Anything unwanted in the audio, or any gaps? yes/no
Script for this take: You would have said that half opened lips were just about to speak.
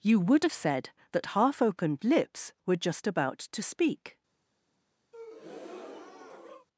yes